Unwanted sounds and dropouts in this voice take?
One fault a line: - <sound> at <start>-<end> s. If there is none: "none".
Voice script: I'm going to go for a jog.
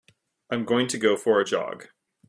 none